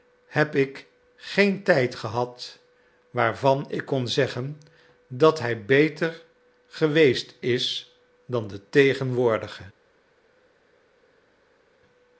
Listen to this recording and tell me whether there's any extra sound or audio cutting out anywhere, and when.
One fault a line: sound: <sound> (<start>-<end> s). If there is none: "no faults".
no faults